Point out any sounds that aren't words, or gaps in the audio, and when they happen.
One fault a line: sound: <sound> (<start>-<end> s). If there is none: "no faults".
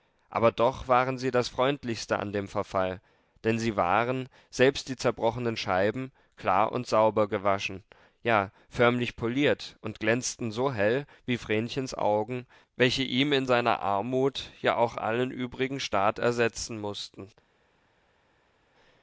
no faults